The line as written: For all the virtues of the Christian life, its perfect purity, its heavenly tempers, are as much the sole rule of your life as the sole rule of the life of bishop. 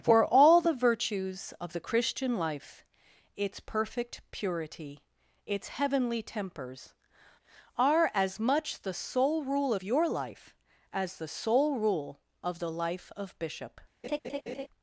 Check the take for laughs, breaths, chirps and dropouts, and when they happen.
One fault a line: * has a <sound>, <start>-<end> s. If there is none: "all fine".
* has a laugh, 14.0-14.7 s